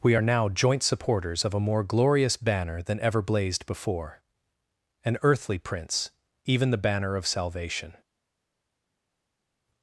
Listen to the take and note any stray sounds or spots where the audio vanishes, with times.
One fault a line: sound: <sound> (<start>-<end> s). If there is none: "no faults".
no faults